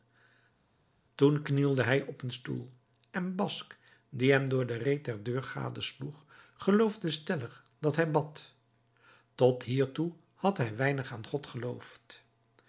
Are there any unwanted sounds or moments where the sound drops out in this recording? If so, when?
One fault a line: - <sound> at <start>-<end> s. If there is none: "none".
none